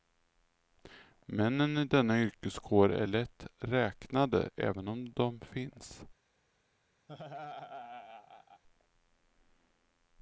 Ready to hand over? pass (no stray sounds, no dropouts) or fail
fail